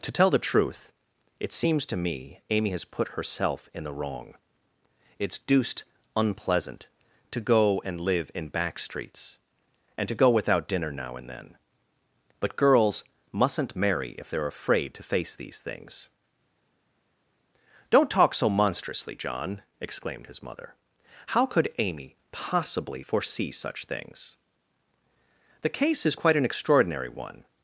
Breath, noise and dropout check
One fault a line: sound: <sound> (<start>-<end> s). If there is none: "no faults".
no faults